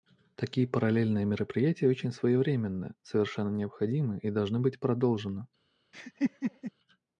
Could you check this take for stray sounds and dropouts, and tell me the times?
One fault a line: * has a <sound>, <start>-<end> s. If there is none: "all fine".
* has a laugh, 5.9-6.7 s